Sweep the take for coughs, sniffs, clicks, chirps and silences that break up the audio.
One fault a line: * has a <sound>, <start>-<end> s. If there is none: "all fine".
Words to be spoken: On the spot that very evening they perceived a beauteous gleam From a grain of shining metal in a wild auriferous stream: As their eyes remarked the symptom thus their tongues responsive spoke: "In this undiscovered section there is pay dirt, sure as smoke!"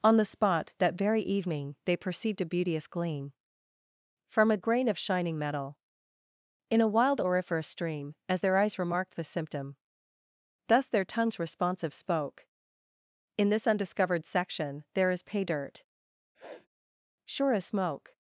* has a sniff, 16.3-16.7 s